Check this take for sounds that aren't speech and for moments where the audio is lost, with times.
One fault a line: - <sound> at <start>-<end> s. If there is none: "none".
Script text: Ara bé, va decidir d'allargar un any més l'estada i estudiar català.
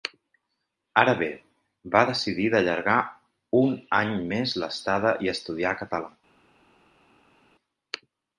none